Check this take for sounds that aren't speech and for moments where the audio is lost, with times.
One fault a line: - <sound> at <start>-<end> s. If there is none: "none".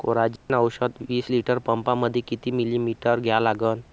- dropout at 0.4-0.5 s